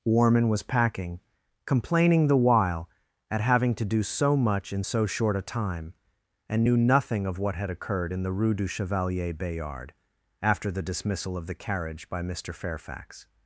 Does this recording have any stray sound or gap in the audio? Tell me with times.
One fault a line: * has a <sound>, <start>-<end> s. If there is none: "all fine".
all fine